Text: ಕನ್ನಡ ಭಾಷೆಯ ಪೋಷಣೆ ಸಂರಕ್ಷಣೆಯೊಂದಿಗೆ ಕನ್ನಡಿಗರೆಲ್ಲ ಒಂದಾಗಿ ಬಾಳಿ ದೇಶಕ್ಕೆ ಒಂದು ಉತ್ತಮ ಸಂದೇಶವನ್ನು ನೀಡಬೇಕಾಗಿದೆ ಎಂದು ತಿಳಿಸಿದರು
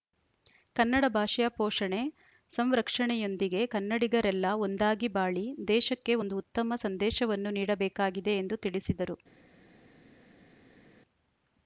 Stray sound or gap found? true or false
false